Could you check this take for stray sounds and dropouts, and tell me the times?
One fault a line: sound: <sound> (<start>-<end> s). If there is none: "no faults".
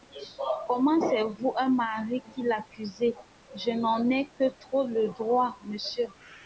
no faults